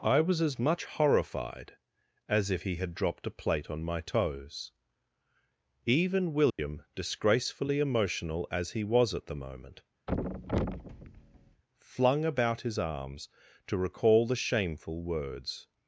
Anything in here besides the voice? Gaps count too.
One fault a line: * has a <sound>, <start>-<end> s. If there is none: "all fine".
* has a dropout, 6.5-6.6 s
* has a thud, 10.1-11.6 s